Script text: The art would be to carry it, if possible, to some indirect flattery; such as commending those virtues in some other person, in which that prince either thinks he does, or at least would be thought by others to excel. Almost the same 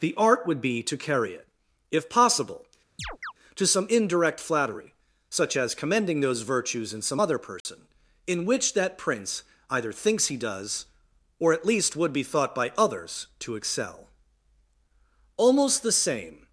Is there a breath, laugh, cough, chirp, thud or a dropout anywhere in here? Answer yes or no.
yes